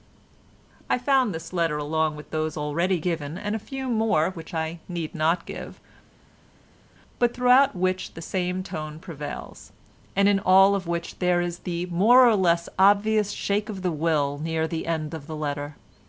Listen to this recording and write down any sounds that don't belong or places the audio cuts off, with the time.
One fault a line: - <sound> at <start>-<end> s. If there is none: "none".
none